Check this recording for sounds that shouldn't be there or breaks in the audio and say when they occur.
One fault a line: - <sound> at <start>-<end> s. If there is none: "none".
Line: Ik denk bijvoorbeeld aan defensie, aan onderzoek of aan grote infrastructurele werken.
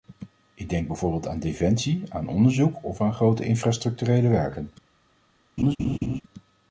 - laugh at 5.6-6.2 s